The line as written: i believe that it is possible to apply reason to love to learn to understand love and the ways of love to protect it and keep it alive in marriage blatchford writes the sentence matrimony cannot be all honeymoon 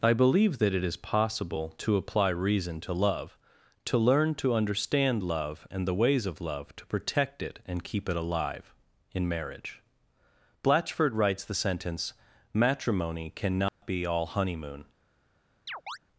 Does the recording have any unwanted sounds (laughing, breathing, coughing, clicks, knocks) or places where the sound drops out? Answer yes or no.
yes